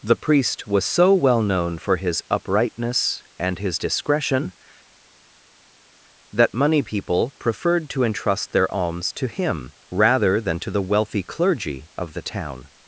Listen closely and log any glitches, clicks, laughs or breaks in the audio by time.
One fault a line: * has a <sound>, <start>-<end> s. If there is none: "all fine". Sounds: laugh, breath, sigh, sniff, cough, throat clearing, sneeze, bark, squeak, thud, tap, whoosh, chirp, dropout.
all fine